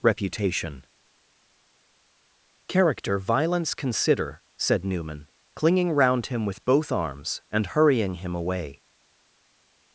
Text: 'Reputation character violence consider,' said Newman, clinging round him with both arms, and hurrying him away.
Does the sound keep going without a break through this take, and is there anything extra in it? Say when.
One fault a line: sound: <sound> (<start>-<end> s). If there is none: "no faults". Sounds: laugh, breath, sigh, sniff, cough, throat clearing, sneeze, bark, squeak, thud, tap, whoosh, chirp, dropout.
no faults